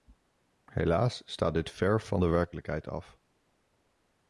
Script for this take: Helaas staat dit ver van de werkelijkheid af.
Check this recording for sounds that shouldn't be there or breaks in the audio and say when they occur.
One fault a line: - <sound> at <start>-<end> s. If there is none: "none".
none